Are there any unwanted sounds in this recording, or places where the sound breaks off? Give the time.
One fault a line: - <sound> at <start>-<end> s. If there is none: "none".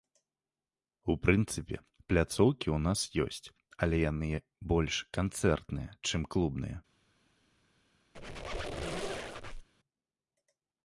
- squeak at 8.1-9.7 s